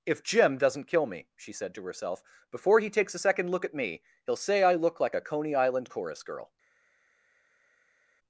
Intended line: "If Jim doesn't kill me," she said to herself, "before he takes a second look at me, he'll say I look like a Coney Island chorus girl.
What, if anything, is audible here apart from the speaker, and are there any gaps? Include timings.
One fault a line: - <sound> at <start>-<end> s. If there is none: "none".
none